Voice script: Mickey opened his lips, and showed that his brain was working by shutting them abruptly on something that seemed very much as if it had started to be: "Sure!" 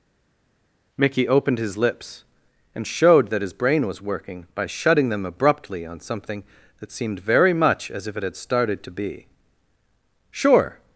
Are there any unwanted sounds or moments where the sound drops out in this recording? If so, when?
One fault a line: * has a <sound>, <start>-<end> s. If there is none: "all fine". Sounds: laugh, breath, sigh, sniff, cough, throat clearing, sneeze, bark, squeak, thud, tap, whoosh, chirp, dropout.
all fine